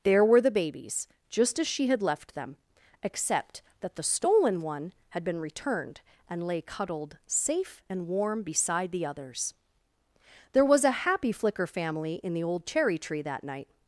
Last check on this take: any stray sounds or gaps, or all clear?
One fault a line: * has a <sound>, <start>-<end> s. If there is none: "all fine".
all fine